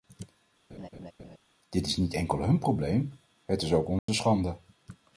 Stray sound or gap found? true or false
true